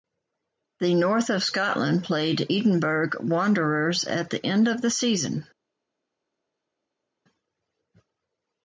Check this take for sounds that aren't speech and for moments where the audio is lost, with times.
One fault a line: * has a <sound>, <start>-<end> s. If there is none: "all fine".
all fine